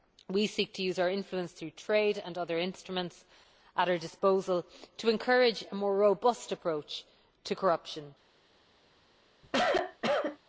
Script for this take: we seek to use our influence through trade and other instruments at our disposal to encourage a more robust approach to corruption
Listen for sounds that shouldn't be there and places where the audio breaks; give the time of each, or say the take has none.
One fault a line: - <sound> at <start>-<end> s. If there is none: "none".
- cough at 9.4-10.4 s